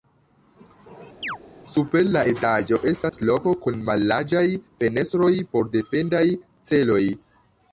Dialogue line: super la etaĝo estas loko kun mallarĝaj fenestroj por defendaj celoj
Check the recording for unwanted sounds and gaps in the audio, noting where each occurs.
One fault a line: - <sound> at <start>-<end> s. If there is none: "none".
- chirp at 1.2-1.4 s
- dropout at 3.1-3.1 s